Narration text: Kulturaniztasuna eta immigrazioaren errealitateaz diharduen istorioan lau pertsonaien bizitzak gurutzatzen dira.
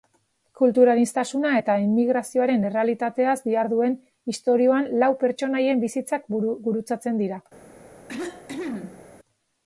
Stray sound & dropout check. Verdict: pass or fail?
fail